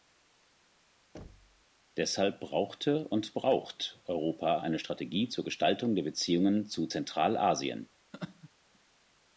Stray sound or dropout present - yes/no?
yes